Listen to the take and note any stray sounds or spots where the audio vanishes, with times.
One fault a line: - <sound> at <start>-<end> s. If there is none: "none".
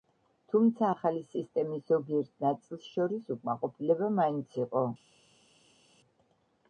none